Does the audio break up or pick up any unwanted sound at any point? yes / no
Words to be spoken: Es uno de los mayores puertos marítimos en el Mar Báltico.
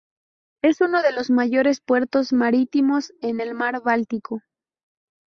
no